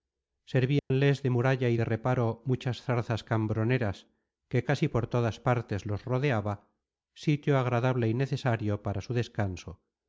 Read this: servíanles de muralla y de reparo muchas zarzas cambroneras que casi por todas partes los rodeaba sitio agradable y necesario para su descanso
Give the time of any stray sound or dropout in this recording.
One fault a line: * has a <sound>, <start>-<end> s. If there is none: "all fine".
* has a dropout, 0.8-0.9 s